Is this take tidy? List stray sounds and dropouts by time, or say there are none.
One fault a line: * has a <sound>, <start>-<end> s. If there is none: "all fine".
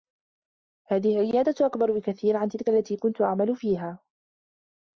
all fine